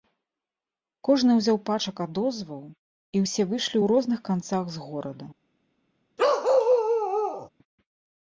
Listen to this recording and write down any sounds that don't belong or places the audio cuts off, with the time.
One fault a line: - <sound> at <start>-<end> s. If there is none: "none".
- bark at 6.2-7.5 s